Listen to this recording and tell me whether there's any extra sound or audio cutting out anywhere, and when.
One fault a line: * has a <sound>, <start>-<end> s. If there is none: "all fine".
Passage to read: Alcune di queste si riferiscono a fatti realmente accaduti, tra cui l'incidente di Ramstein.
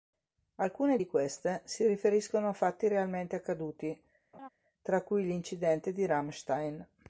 * has a laugh, 4.3-4.5 s